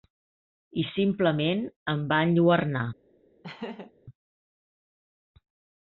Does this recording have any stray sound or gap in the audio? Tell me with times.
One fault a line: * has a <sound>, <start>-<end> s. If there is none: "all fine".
* has a laugh, 3.4-3.9 s